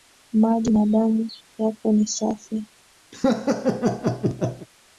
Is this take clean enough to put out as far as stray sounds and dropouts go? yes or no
no